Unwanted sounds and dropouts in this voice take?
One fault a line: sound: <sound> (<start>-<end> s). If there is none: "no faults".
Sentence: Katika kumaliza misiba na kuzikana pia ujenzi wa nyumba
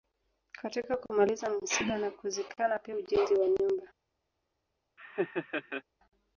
sound: laugh (5.0-5.8 s)